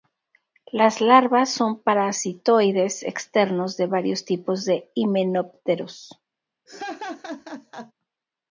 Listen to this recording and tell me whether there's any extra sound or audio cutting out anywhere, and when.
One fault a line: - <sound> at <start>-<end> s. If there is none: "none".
- laugh at 6.7-7.9 s